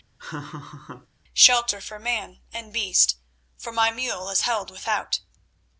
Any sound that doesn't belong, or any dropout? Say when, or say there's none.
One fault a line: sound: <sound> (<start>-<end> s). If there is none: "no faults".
sound: laugh (0.2-1.1 s)